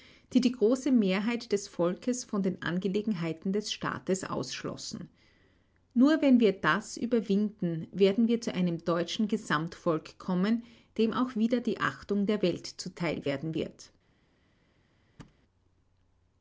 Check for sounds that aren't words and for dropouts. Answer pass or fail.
fail